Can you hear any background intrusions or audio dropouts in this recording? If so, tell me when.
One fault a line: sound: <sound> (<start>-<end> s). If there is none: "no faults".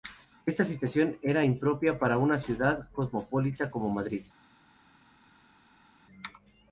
no faults